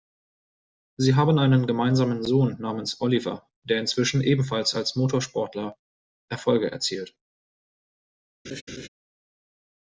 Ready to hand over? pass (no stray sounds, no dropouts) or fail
fail